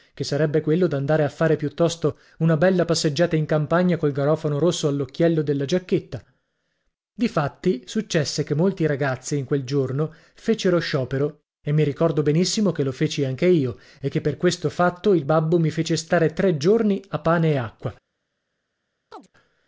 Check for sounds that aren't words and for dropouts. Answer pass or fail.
fail